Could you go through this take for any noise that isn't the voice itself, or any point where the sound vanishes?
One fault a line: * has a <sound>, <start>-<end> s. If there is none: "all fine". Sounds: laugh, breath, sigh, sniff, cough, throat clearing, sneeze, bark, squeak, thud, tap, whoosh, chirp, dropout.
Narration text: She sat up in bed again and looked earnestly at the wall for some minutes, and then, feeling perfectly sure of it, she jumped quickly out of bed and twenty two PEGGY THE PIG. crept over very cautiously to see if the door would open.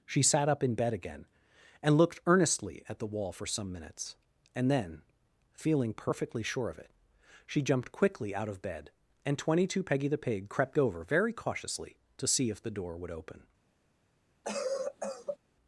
* has a cough, 14.4-15.4 s